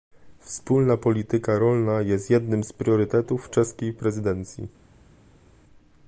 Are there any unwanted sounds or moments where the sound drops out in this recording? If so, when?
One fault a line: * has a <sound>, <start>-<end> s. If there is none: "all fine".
all fine